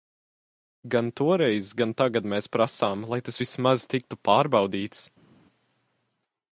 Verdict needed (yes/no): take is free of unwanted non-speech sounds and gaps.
yes